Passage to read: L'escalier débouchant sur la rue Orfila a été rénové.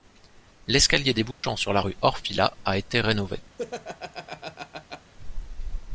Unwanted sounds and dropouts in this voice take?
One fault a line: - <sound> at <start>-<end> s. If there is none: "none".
- dropout at 1.3-1.4 s
- laugh at 3.6-5.1 s